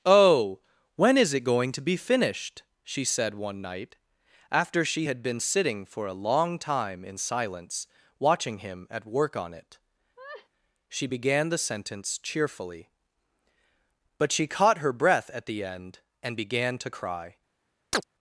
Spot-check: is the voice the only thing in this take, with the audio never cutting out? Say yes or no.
no